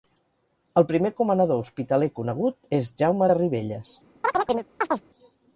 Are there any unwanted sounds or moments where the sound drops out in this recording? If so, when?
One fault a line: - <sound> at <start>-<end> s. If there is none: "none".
- chirp at 4.2-5.1 s